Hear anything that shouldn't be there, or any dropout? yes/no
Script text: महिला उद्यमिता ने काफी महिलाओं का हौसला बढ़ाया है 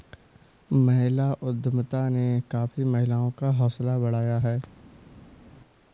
no